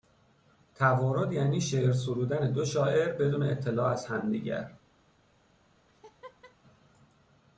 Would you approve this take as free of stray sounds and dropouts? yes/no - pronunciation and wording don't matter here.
no